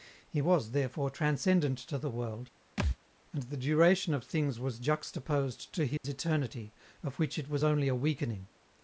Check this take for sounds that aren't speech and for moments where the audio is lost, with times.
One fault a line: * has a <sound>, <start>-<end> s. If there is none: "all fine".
* has a thud, 2.8-3.0 s
* has a dropout, 6.0-6.0 s